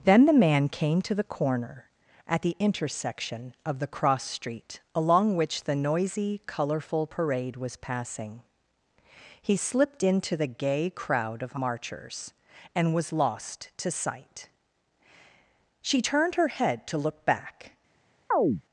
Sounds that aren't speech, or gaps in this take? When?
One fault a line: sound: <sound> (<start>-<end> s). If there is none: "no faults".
sound: chirp (18.3-18.6 s)